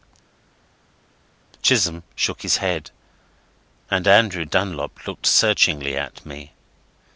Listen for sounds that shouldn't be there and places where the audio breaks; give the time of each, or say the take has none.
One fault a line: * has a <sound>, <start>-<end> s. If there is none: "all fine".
all fine